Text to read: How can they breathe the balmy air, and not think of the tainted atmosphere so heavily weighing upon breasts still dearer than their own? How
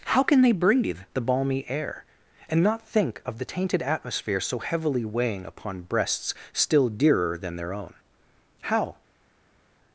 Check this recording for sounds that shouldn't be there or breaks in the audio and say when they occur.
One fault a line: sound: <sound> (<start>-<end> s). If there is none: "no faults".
no faults